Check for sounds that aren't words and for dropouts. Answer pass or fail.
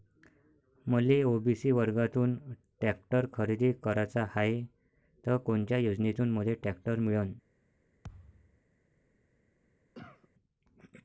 fail